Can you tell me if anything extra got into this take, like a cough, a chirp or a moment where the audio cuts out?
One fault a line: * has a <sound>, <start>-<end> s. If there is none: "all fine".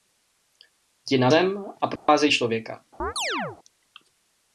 * has a dropout, 2.0-2.1 s
* has a chirp, 3.0-3.6 s